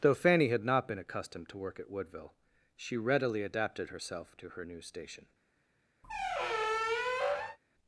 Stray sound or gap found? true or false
true